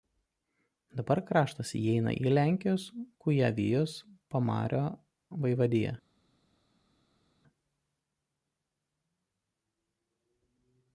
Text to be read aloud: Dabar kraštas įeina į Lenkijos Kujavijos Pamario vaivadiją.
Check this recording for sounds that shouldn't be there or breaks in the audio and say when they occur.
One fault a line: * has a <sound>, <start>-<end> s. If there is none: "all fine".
all fine